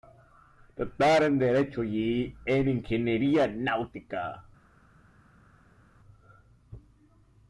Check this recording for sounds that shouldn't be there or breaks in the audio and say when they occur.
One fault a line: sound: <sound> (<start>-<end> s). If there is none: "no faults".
no faults